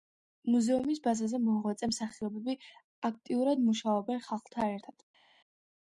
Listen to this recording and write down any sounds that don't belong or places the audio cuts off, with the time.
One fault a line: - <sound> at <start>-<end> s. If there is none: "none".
none